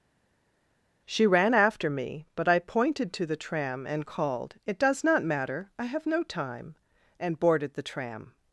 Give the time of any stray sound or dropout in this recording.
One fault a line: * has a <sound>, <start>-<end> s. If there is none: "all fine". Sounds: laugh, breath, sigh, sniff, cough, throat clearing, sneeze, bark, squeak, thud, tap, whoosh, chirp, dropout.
all fine